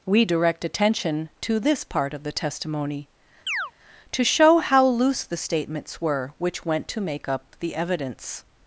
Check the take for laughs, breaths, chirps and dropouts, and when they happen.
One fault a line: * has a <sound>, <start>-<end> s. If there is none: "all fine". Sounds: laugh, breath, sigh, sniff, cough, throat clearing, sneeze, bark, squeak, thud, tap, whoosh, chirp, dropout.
* has a chirp, 3.5-3.7 s